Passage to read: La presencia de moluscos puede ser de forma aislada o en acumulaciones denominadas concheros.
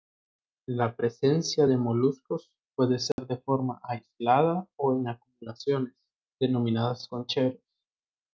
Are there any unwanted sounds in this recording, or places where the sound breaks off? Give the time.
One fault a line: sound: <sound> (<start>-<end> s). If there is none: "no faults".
sound: dropout (3.1-3.2 s)